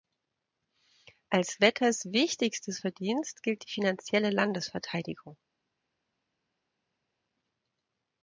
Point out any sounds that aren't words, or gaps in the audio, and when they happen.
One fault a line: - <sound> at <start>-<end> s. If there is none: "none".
none